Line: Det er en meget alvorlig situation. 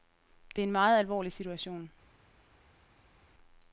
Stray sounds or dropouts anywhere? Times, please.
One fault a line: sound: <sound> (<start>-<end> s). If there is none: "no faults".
no faults